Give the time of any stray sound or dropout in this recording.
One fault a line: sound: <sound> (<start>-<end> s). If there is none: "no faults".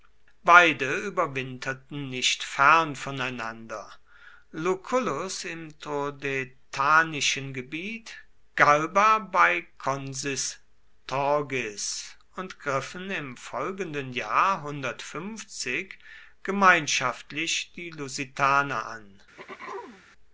sound: throat clearing (19.4-20.0 s)